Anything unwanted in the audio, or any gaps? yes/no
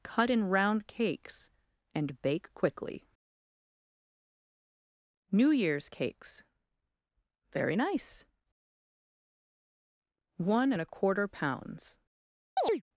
yes